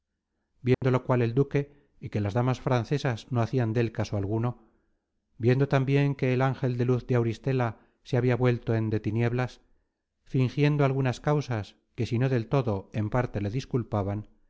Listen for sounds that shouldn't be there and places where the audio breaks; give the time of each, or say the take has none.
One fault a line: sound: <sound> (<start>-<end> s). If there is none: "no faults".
sound: dropout (0.7-0.8 s)